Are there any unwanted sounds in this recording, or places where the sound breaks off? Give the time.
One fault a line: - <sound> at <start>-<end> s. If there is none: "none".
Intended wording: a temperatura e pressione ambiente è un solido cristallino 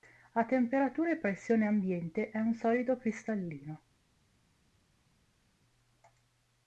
none